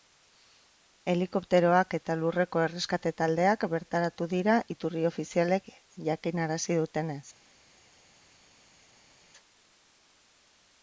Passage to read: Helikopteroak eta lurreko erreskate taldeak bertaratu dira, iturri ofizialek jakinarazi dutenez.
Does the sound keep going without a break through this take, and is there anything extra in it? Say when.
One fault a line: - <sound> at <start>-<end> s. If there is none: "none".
none